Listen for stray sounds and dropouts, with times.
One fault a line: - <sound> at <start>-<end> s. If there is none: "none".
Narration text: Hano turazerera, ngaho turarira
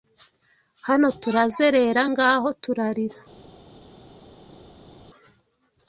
none